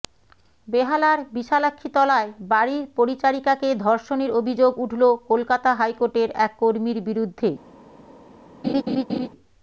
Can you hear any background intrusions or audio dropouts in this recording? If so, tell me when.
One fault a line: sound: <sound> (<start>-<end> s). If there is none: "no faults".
sound: laugh (8.6-9.3 s)